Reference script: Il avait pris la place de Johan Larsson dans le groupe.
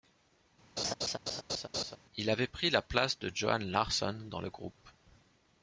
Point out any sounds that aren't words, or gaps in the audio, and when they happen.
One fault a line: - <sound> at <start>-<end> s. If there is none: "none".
- laugh at 0.8-2.0 s